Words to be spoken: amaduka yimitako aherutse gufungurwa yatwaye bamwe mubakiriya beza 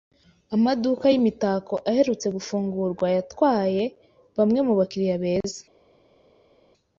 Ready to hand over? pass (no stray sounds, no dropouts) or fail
pass